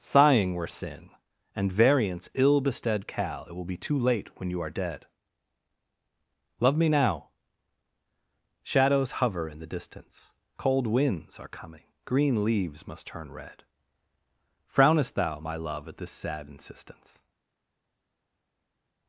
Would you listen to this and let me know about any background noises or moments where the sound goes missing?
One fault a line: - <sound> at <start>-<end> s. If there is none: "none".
none